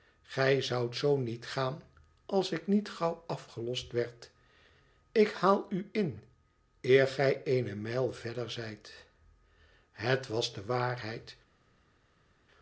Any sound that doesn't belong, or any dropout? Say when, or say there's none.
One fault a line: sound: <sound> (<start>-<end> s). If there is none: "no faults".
no faults